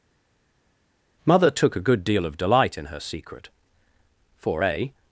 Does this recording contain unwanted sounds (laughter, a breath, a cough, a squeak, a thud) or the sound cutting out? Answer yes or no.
no